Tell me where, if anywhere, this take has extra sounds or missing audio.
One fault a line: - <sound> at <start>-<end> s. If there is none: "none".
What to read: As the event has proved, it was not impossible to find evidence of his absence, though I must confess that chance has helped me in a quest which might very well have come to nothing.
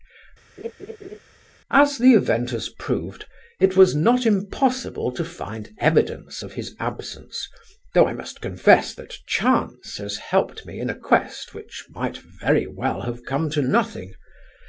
- laugh at 0.6-1.2 s